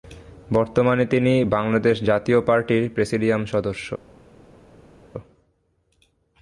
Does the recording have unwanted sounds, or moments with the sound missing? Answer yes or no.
no